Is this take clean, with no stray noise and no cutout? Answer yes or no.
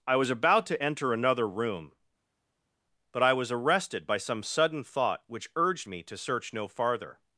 yes